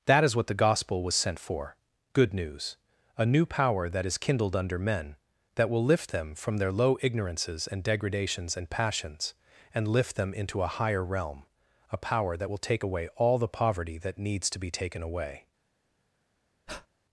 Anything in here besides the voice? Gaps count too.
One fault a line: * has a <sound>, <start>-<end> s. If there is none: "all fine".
* has a breath, 16.7-16.9 s